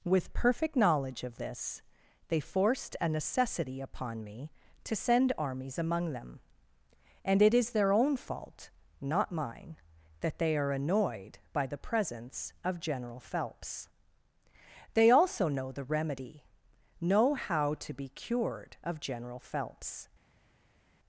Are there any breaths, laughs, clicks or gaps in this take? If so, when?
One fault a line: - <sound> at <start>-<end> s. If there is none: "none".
none